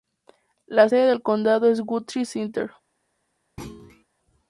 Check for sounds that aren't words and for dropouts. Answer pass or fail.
fail